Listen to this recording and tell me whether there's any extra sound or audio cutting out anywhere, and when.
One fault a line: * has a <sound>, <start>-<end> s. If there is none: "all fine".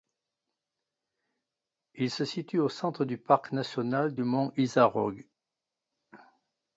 all fine